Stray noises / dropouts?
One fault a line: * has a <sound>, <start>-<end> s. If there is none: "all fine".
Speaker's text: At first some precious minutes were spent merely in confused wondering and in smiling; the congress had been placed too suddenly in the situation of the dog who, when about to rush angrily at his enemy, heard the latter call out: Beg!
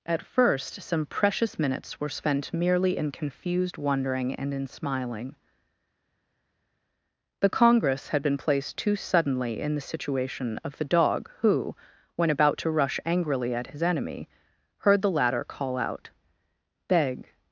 all fine